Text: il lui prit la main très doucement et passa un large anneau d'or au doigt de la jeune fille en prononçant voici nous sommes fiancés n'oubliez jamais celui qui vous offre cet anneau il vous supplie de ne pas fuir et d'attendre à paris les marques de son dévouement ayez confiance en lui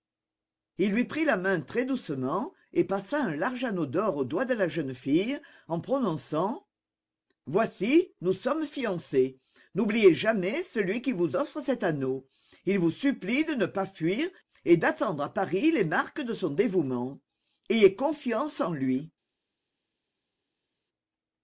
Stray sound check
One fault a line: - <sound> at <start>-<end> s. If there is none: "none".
none